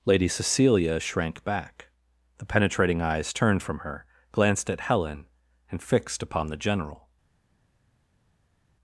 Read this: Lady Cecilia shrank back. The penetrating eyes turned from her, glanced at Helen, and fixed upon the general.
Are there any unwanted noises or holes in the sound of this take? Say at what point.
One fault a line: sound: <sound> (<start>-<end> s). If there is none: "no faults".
no faults